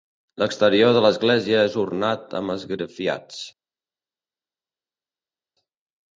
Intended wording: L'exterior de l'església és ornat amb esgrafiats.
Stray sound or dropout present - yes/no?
no